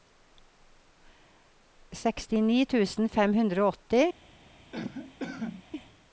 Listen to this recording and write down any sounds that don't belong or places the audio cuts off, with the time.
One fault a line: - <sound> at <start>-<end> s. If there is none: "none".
- cough at 4.7-5.6 s